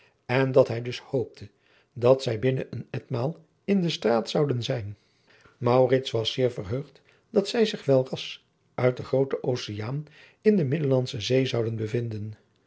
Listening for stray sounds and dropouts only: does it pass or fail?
pass